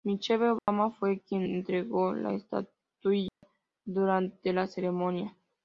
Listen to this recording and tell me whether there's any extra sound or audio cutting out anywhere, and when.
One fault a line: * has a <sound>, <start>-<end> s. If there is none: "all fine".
* has a dropout, 0.6-0.7 s
* has a dropout, 3.3-3.4 s